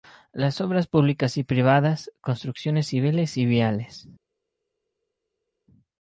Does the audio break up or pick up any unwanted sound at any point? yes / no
no